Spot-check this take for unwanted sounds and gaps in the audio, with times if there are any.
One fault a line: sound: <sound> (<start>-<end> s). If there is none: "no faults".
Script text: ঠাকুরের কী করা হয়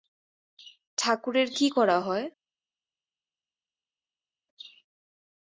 no faults